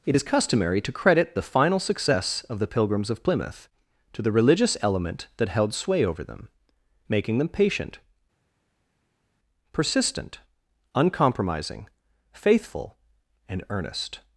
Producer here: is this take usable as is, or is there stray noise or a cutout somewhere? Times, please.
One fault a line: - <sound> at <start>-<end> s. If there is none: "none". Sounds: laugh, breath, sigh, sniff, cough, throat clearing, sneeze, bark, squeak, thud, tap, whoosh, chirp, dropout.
none